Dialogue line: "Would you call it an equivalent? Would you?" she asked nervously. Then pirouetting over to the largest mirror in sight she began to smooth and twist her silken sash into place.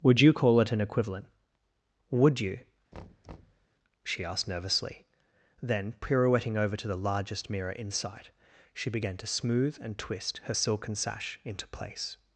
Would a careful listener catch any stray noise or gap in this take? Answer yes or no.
yes